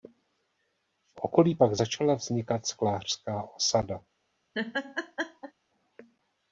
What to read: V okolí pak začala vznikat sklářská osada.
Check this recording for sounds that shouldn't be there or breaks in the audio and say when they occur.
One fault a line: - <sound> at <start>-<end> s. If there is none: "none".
- laugh at 4.5-5.5 s